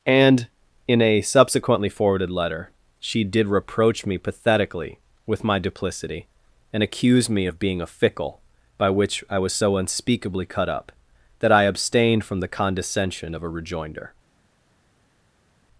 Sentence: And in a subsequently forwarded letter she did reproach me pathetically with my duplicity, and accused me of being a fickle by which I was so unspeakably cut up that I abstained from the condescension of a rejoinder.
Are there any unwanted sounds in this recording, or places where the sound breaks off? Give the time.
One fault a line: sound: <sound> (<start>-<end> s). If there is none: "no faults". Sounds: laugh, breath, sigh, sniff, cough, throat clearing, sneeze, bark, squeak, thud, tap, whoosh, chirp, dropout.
no faults